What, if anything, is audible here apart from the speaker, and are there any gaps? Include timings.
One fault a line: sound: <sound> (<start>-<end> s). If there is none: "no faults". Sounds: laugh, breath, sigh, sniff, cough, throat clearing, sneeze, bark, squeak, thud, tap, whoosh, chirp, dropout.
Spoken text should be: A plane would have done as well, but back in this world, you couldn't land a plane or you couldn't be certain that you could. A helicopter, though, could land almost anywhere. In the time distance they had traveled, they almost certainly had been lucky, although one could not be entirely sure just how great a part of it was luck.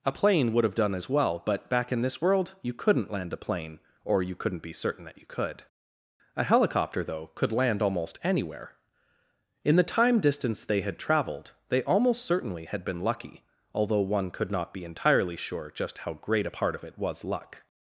no faults